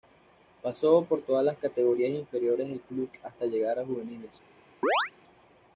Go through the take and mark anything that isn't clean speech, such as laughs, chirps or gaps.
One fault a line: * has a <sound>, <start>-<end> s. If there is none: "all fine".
* has a chirp, 4.8-5.1 s